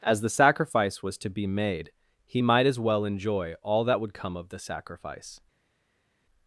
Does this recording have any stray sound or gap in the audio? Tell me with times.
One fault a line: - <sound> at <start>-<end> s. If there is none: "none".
none